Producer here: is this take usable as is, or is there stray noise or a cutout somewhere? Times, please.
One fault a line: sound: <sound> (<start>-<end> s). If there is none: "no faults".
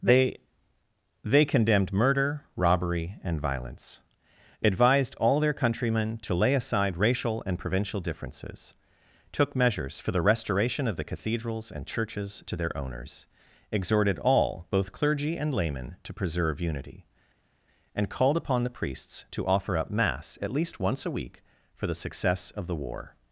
no faults